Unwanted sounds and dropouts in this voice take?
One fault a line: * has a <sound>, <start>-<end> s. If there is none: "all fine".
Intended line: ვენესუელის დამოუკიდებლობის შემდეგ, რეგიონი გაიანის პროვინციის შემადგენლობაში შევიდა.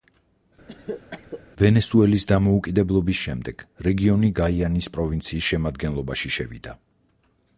* has a cough, 0.7-1.4 s